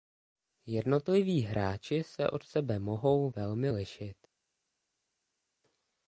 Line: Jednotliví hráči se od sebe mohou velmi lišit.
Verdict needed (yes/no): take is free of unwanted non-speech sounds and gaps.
yes